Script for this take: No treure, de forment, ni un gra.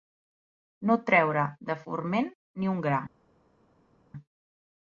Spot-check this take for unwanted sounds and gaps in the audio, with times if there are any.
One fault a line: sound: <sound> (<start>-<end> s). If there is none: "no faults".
no faults